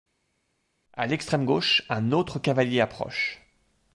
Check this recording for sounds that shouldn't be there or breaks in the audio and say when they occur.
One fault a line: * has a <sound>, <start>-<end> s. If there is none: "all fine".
all fine